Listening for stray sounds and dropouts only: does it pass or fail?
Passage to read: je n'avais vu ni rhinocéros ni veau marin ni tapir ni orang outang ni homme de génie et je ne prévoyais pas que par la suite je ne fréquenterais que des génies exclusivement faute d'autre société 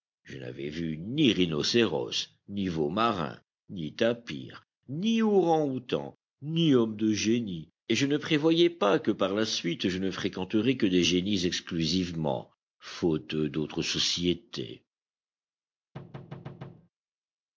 fail